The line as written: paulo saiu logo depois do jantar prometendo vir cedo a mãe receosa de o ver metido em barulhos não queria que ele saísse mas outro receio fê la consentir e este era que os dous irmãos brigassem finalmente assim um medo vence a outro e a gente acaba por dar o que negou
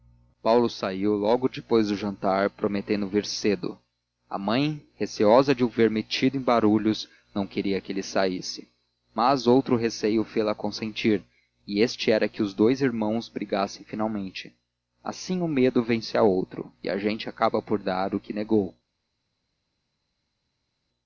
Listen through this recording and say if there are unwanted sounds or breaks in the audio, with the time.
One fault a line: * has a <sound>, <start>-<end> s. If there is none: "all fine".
all fine